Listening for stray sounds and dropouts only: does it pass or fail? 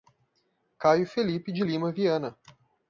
pass